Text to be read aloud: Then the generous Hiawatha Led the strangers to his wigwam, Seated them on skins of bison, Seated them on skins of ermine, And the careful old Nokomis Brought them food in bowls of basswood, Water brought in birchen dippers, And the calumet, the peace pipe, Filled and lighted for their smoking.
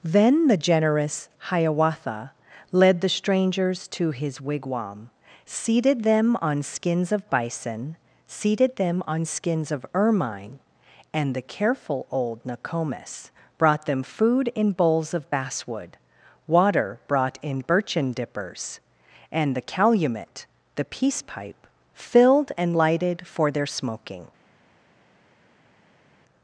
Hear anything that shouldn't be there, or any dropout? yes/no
no